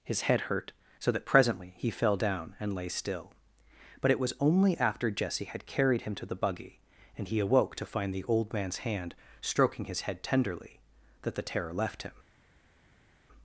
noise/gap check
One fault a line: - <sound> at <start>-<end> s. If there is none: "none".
none